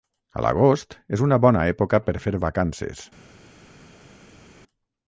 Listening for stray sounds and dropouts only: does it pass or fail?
pass